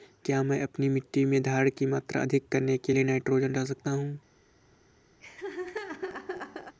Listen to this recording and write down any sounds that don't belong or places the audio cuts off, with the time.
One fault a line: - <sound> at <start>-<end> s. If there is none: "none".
- laugh at 5.2-6.8 s